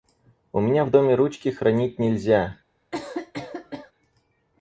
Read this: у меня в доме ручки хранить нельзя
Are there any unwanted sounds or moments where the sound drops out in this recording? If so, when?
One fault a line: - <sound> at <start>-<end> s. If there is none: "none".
- cough at 2.9-3.9 s